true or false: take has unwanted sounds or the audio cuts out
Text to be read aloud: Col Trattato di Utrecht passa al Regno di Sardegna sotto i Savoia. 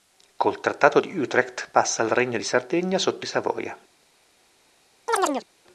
true